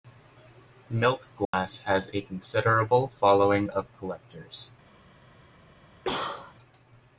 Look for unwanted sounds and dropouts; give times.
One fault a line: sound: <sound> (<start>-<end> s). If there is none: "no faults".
sound: dropout (1.4-1.5 s)
sound: cough (6.0-6.5 s)